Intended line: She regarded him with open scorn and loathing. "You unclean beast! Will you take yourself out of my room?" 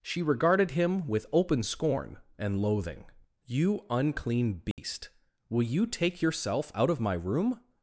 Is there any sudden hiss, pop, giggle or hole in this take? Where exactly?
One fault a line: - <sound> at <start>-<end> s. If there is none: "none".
- dropout at 4.7-4.8 s